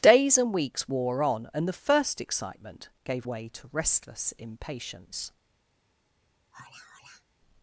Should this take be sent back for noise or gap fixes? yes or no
yes